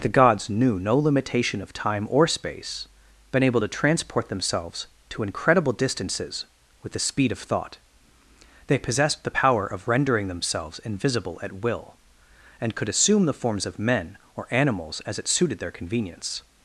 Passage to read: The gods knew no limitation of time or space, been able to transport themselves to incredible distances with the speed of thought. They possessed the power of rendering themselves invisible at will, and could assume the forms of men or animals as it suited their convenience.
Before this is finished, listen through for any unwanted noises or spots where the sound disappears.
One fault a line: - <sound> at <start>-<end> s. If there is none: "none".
none